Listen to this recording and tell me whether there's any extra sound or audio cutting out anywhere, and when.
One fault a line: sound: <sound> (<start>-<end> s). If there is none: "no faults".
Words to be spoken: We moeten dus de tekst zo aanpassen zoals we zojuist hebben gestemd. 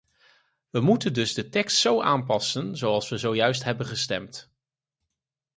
no faults